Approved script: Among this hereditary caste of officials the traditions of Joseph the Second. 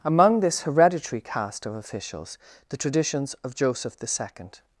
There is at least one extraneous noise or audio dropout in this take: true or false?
false